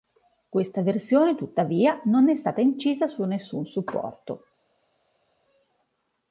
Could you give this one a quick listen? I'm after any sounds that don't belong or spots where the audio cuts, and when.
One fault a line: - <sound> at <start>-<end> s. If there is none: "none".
none